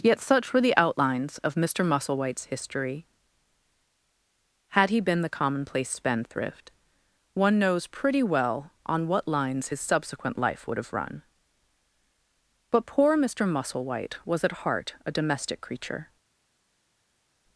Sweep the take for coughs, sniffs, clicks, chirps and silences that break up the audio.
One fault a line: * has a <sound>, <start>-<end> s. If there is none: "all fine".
all fine